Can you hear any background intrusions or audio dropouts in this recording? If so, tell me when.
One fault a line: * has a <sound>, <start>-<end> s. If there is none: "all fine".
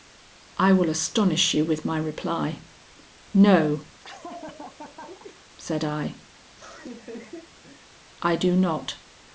* has a laugh, 4.0-5.4 s
* has a laugh, 6.4-8.0 s